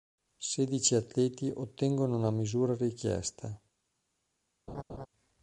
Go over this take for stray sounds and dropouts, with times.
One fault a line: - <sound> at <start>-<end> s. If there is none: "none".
- laugh at 4.7-5.1 s